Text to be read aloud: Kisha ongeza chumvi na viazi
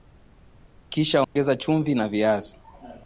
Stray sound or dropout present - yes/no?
yes